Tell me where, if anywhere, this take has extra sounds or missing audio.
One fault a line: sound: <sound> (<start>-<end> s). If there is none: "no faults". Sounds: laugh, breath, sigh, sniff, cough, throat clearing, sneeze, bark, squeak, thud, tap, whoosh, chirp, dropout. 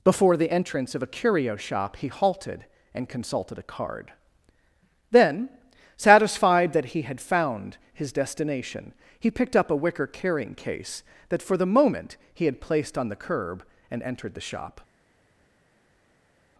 no faults